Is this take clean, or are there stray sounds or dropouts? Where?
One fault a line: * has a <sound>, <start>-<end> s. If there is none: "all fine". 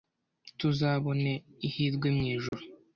* has a dropout, 2.5-2.5 s